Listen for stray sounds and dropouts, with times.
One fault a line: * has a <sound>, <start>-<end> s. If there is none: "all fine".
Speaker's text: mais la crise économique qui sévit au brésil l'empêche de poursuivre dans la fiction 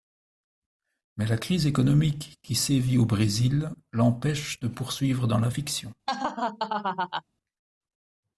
* has a laugh, 6.1-7.2 s